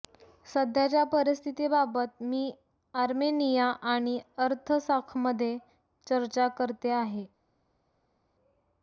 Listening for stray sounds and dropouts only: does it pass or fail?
pass